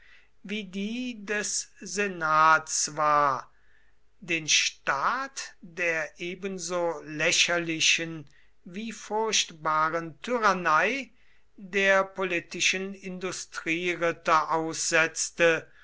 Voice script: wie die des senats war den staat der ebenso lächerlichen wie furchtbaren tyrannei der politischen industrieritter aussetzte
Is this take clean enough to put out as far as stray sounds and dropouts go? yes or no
yes